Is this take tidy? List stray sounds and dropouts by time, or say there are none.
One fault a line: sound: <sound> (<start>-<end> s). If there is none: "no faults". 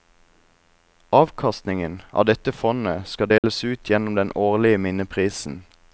sound: dropout (3.4-3.4 s)